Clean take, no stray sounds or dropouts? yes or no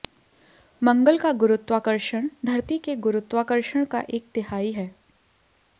yes